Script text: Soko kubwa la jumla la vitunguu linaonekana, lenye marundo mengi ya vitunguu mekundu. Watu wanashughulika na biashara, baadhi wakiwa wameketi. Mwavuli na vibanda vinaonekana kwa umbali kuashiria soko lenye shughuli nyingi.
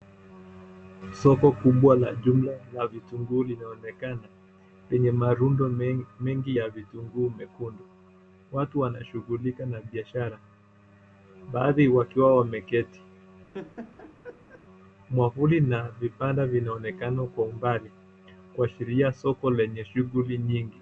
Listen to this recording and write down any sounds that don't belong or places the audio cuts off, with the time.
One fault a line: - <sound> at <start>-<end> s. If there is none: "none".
- laugh at 13.5-14.6 s